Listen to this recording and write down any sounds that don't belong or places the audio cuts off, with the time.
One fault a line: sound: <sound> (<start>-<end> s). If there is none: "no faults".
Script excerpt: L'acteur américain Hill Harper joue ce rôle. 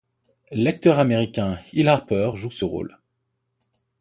no faults